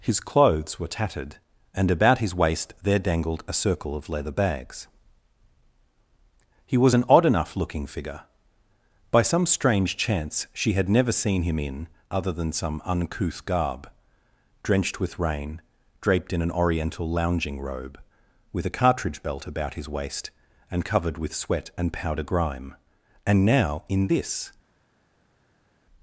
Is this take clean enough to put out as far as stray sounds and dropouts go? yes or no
yes